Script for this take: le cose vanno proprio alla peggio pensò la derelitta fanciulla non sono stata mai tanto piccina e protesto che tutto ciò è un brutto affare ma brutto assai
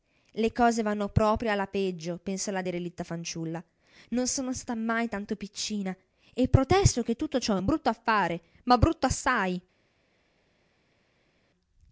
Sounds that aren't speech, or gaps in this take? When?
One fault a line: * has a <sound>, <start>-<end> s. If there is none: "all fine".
all fine